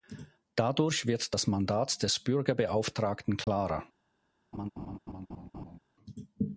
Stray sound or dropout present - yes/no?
yes